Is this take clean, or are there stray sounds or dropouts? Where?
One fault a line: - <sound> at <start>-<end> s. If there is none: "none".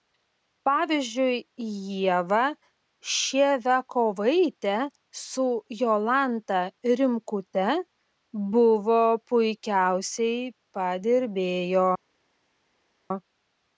none